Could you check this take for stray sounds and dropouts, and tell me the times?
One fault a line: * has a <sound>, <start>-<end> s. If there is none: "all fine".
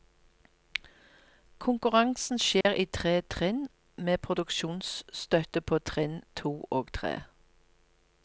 * has a dropout, 2.6-2.7 s